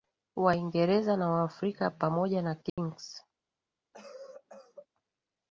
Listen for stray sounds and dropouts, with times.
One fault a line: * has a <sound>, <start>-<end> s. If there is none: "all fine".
* has a dropout, 2.7-2.8 s
* has a cough, 3.9-4.9 s